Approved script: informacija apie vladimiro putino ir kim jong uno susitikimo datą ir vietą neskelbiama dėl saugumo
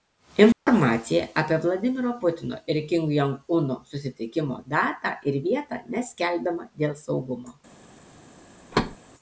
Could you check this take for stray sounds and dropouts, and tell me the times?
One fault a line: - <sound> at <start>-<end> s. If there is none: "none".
- dropout at 0.5-0.7 s
- thud at 8.7-9.0 s